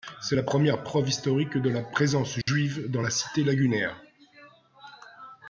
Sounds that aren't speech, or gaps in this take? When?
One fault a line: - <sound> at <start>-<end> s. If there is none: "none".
- dropout at 2.4-2.5 s